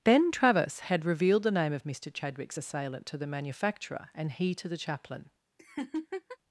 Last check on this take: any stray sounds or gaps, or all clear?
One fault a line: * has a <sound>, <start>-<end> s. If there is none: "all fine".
* has a laugh, 5.6-6.4 s